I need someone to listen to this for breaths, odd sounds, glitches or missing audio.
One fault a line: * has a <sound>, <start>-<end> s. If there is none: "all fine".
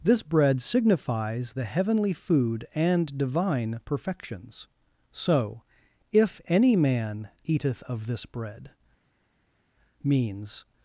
all fine